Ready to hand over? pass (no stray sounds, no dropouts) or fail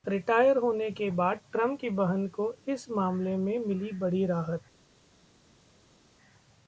pass